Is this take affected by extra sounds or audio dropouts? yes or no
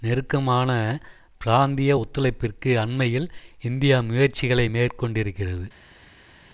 no